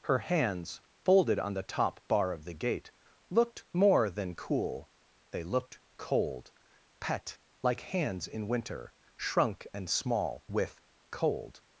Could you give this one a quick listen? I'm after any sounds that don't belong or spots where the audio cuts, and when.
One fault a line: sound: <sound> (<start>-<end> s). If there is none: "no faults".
no faults